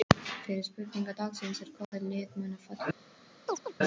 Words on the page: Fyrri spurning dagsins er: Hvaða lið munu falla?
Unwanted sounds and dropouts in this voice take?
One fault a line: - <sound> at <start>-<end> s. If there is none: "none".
- dropout at 1.8-1.9 s
- chirp at 3.5-3.7 s